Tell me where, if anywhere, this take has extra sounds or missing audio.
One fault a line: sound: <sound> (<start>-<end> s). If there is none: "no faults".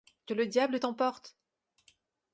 no faults